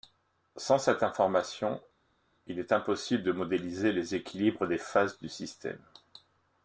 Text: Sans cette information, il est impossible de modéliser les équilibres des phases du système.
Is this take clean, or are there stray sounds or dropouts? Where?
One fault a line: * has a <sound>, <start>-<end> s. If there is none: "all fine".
all fine